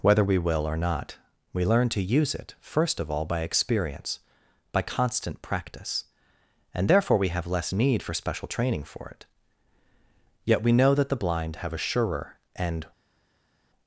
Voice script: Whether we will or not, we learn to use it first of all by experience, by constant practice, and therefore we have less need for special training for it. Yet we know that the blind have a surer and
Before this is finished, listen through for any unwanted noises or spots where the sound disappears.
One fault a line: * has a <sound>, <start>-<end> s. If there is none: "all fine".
all fine